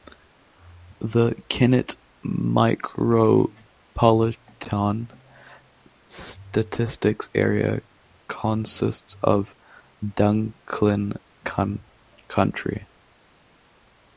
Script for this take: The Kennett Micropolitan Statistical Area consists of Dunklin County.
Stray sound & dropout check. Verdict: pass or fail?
pass